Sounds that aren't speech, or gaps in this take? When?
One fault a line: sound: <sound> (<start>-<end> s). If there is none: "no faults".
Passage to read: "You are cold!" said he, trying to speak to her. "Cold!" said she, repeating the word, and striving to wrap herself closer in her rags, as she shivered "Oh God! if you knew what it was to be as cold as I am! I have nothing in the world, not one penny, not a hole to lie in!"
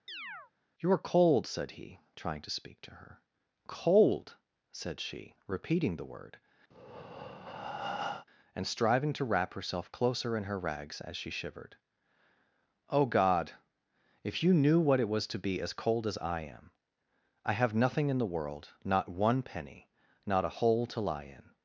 sound: chirp (0.1-0.5 s)
sound: breath (6.7-8.3 s)